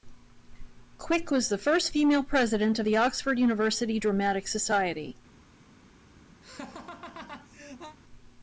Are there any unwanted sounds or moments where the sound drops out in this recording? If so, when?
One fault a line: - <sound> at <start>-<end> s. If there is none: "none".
- laugh at 6.4-8.0 s